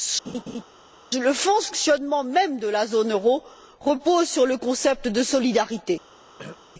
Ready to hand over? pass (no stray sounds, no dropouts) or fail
fail